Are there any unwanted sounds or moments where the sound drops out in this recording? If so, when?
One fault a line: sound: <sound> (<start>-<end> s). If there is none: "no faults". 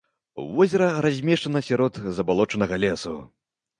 no faults